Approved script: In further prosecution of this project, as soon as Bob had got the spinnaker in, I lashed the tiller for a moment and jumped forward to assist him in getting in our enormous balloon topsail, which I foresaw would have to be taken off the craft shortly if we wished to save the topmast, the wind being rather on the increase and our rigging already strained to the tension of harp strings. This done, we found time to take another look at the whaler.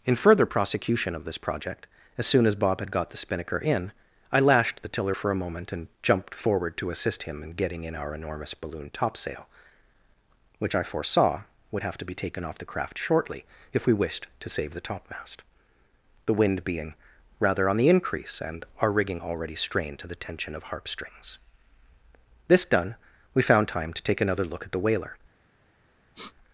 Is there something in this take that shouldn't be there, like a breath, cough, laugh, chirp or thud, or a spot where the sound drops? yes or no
yes